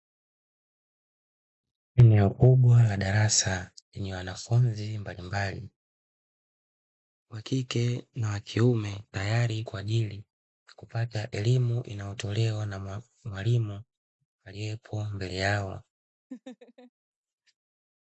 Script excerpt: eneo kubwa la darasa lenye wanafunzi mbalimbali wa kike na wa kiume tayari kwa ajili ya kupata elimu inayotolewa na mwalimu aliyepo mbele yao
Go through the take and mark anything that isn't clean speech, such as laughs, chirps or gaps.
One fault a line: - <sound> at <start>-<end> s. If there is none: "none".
- laugh at 16.3-16.9 s